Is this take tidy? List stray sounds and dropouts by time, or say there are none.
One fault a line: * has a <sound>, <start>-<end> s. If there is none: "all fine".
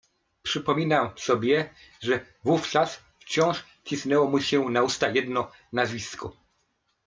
all fine